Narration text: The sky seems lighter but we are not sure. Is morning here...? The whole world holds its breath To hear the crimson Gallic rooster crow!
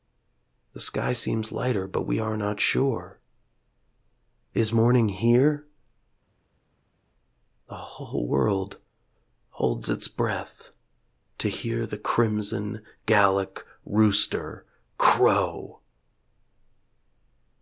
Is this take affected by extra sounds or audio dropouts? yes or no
no